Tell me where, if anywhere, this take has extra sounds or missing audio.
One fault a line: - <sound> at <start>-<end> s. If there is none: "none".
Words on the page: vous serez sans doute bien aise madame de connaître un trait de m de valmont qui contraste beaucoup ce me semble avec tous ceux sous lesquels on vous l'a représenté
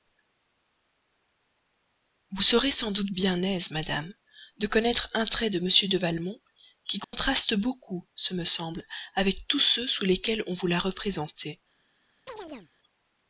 - dropout at 7.0-7.1 s
- chirp at 12.3-12.7 s